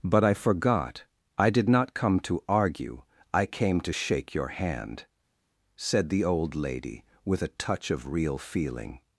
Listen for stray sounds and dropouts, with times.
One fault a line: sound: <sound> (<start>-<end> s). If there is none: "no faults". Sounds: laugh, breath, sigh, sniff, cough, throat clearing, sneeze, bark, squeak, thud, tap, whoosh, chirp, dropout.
no faults